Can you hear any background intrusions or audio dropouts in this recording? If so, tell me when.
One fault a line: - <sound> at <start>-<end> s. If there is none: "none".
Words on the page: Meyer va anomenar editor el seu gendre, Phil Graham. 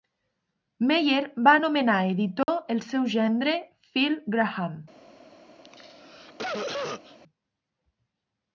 - dropout at 2.4-2.5 s
- cough at 5.6-7.2 s